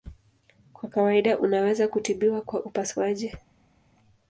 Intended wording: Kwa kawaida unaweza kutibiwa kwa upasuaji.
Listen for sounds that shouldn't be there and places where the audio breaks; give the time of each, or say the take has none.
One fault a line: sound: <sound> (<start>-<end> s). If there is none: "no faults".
no faults